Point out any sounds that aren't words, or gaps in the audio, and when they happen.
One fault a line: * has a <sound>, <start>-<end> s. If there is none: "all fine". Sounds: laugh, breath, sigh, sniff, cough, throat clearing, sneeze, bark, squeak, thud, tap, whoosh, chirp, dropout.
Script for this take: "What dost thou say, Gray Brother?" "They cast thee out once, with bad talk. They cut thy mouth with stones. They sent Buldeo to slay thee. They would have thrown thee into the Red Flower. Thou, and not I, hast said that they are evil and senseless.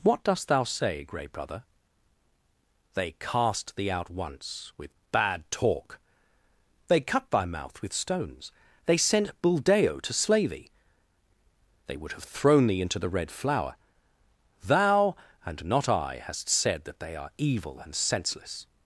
all fine